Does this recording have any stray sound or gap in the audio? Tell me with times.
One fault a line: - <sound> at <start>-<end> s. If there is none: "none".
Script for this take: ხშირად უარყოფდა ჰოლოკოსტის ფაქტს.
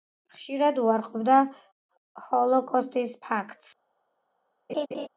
- laugh at 4.7-5.1 s